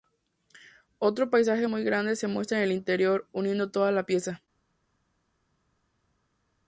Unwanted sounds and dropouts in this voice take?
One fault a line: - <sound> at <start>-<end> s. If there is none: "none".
none